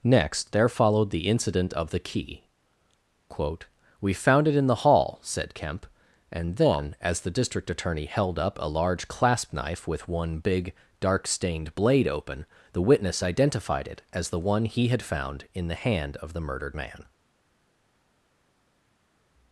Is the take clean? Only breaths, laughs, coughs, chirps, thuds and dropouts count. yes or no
yes